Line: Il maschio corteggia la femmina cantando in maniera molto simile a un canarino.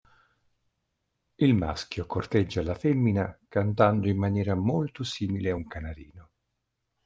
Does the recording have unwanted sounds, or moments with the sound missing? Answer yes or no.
no